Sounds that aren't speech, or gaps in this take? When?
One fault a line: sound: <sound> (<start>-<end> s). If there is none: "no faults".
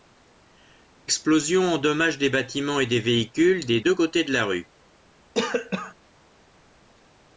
sound: cough (5.3-5.9 s)